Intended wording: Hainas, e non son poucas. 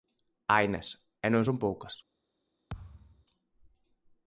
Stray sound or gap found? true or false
true